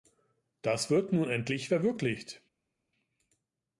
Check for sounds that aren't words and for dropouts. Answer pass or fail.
pass